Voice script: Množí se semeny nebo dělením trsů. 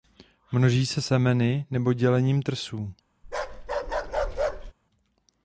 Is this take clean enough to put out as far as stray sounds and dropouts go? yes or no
no